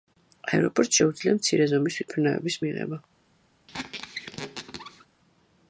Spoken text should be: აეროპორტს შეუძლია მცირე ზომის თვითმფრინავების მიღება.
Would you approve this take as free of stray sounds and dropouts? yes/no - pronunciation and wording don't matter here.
no